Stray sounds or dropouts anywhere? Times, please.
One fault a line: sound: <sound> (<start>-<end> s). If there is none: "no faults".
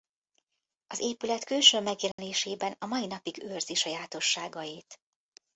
sound: dropout (2.1-2.2 s)